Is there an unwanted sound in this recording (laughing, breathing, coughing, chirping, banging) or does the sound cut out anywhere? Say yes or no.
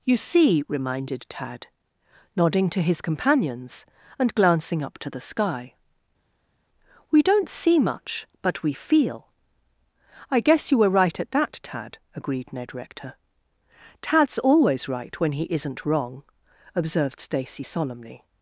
no